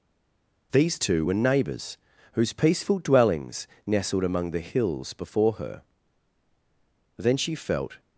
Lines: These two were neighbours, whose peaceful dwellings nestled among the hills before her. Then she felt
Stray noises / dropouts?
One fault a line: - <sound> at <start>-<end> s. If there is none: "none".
none